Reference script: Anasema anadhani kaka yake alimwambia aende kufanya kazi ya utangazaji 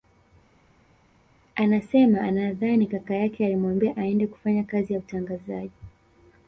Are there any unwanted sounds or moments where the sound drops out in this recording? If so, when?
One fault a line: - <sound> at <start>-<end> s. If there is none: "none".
none